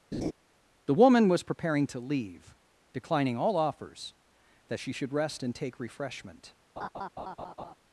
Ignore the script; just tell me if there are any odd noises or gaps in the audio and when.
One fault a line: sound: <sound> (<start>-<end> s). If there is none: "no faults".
sound: laugh (0.1-0.3 s)
sound: laugh (6.8-7.7 s)